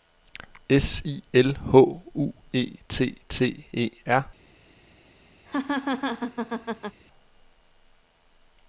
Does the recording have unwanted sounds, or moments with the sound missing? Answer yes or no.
yes